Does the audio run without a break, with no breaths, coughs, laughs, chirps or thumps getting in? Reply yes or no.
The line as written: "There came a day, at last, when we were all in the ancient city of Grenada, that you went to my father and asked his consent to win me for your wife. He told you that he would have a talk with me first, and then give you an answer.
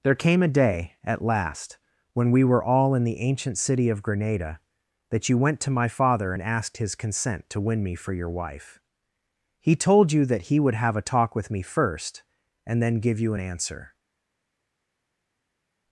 yes